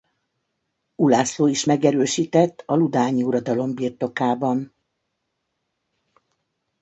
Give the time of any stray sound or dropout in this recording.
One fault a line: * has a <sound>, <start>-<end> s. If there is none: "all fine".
all fine